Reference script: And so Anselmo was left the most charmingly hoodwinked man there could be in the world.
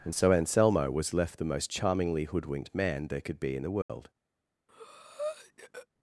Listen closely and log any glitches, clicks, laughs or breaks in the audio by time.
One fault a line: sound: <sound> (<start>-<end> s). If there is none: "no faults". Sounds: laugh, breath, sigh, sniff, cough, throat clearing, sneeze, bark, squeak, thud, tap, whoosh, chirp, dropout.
sound: dropout (3.8-3.9 s)
sound: breath (4.7-5.9 s)